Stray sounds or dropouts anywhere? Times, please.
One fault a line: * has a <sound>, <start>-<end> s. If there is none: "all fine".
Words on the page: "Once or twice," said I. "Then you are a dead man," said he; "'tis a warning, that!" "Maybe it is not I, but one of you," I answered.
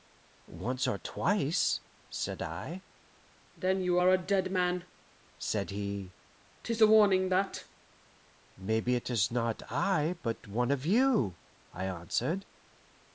all fine